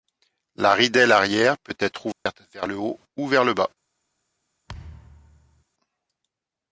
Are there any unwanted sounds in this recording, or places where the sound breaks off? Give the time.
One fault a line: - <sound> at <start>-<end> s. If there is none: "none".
- dropout at 2.1-2.3 s
- thud at 4.7-5.6 s